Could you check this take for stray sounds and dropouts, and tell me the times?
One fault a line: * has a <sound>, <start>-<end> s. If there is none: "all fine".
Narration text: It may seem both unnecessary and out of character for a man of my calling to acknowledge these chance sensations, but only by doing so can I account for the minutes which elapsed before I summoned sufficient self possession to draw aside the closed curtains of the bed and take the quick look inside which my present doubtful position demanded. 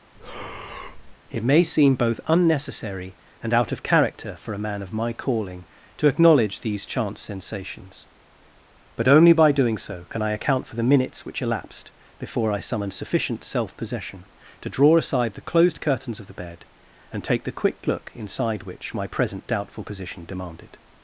* has a breath, 0.1-1.2 s